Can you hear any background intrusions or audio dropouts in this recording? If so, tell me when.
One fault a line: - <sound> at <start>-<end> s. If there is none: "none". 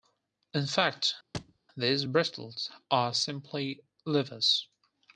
- thud at 1.3-1.6 s